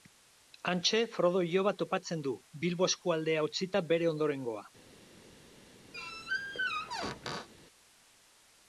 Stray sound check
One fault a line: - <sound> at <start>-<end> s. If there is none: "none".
- squeak at 5.9-7.5 s